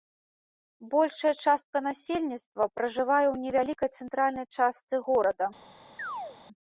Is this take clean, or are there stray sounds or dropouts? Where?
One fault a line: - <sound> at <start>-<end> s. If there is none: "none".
- chirp at 6.0-6.4 s